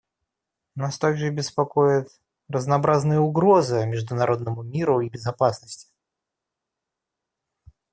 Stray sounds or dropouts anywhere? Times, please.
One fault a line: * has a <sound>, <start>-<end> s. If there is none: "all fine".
all fine